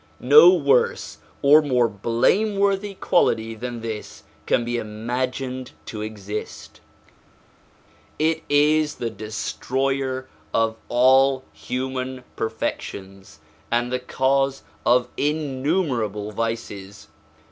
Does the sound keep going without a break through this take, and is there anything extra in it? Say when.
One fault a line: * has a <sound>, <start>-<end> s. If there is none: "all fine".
all fine